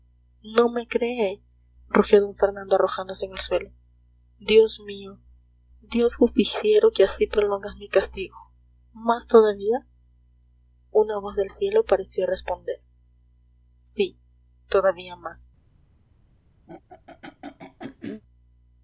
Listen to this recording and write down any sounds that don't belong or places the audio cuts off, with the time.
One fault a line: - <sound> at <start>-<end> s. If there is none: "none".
- throat clearing at 16.7-18.2 s